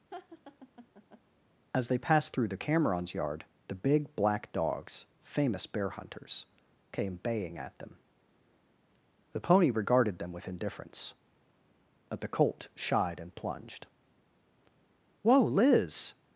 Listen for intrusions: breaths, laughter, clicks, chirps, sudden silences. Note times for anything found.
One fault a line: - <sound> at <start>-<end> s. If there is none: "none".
- laugh at 0.1-1.2 s